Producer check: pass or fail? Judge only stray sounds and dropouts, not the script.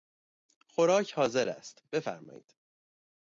pass